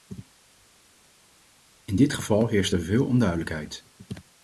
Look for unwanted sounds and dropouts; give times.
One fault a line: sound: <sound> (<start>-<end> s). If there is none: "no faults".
no faults